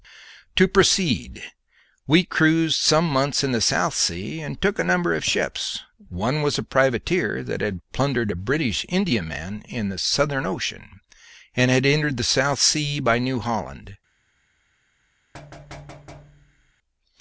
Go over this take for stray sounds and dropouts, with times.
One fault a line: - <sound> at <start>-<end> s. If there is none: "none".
- thud at 15.3-16.7 s